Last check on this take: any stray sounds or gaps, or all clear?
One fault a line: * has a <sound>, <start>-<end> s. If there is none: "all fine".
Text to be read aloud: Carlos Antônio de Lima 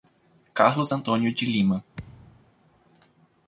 * has a thud, 1.9-2.5 s